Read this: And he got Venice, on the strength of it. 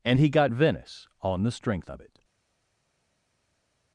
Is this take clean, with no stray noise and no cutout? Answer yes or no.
yes